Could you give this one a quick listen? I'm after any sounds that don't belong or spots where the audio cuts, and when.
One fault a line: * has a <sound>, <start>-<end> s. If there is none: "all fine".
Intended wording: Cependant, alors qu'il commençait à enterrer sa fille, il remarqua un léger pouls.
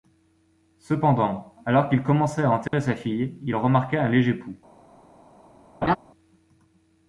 * has a dropout, 2.7-2.7 s
* has a laugh, 5.8-6.0 s